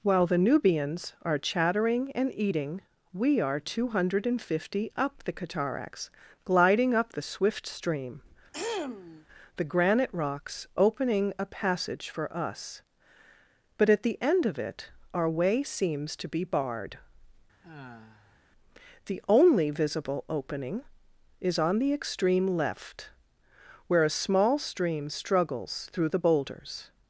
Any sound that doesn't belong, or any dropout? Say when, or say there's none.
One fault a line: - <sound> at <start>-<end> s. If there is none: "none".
- throat clearing at 8.5-9.3 s
- sigh at 17.6-18.4 s